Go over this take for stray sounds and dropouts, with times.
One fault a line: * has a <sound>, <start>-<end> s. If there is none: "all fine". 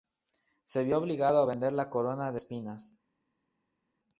all fine